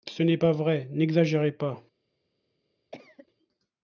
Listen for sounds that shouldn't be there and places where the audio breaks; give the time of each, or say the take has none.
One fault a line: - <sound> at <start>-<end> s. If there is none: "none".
- cough at 2.9-3.3 s